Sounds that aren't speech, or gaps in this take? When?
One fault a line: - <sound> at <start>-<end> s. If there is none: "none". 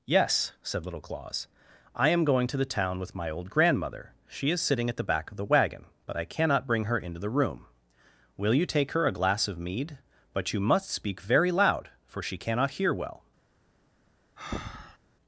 - breath at 14.4-15.0 s